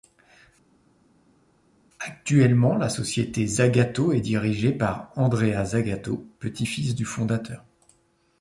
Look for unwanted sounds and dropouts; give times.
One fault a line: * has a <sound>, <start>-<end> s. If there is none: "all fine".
all fine